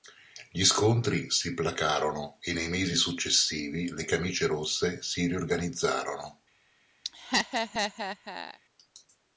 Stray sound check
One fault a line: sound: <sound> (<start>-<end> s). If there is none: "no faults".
sound: laugh (7.0-8.6 s)